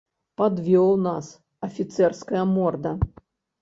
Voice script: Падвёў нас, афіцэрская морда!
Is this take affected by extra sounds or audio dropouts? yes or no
no